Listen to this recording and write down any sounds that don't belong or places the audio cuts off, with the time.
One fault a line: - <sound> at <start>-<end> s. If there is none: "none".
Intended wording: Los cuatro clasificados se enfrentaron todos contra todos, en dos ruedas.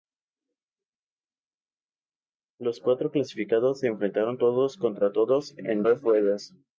none